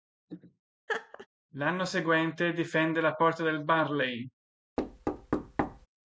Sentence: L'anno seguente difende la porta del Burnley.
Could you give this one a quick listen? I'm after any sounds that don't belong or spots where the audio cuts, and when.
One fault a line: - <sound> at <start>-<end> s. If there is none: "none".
- laugh at 0.9-1.3 s
- thud at 4.8-5.9 s